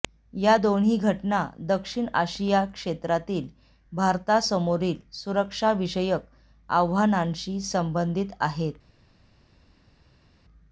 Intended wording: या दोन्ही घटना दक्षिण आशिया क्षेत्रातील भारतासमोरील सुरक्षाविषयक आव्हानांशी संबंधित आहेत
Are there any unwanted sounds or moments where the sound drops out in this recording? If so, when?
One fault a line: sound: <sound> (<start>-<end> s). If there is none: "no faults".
no faults